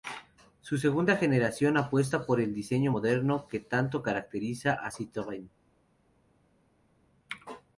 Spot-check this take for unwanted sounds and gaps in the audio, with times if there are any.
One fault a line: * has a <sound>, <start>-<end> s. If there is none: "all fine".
all fine